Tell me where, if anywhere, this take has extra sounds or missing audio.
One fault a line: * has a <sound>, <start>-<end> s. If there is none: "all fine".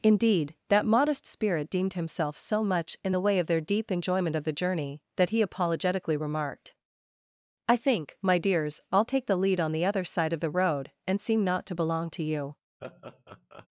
* has a laugh, 12.8-13.7 s